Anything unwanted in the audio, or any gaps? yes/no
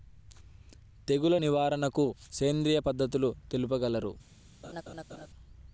yes